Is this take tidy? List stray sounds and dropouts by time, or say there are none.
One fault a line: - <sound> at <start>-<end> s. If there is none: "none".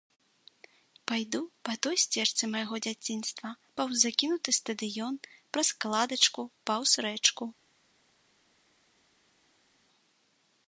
none